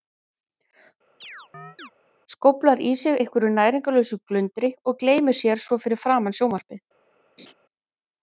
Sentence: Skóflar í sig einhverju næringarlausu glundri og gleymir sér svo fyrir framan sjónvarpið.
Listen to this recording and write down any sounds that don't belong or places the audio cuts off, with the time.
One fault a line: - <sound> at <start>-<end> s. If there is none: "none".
- chirp at 1.2-1.9 s
- laugh at 7.4-7.5 s